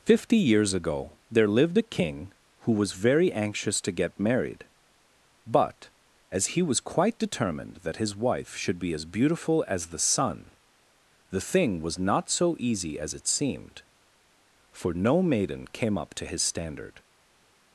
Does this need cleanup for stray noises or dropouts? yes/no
no